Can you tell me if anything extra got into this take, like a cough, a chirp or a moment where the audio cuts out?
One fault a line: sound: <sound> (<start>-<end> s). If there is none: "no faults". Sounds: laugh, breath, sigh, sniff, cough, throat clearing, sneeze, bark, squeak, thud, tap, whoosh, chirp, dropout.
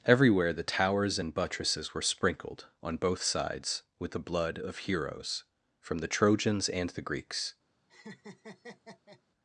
sound: laugh (7.9-9.2 s)